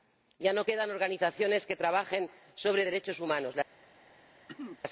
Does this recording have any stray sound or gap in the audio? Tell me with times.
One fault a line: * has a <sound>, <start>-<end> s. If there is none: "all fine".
* has a throat clearing, 4.5-4.8 s